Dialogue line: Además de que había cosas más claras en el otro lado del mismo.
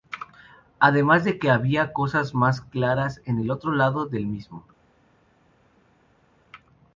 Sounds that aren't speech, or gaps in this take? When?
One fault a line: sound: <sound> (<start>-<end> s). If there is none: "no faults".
no faults